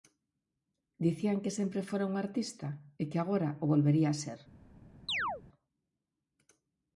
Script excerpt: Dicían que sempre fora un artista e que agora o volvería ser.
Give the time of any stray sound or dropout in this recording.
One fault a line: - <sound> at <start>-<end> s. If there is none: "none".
- chirp at 5.1-5.4 s